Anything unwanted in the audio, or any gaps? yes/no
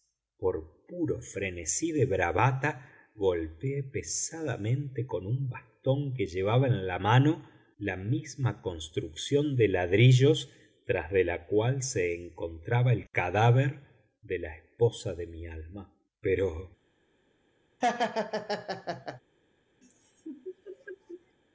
yes